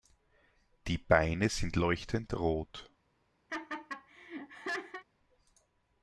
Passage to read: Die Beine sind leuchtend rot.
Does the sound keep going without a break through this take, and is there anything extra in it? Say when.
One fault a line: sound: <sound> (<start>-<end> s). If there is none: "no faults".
sound: laugh (3.5-5.0 s)